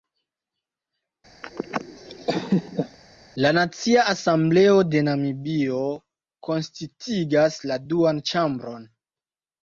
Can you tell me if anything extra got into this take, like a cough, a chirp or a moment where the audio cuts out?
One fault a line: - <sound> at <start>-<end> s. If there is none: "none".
- laugh at 1.4-3.0 s